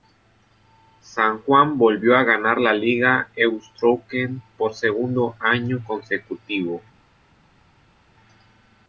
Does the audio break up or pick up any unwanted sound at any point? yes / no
no